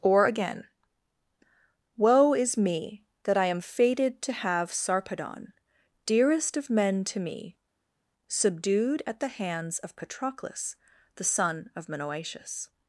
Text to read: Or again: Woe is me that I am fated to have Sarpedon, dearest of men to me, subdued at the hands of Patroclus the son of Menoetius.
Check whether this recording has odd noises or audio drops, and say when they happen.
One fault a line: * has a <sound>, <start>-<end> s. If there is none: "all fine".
all fine